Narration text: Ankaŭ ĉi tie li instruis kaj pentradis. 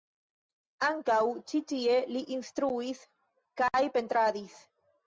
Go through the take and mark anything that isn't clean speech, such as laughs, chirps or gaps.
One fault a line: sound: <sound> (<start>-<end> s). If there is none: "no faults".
no faults